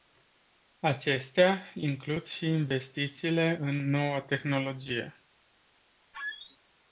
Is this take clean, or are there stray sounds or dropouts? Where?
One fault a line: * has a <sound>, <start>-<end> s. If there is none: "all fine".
* has a squeak, 6.1-6.6 s